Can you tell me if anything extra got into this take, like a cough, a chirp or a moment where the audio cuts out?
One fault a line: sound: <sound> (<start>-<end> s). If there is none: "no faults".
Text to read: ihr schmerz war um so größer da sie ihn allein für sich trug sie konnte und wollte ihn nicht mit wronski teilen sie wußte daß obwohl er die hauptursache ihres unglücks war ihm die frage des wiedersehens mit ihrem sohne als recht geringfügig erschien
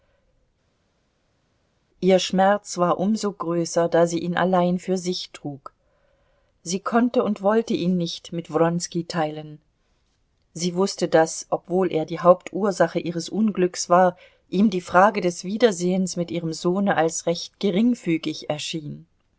no faults